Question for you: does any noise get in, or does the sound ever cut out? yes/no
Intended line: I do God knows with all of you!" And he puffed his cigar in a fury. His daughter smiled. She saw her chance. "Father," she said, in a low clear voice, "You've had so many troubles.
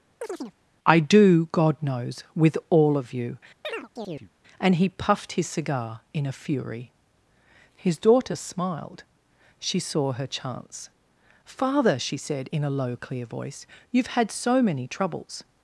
yes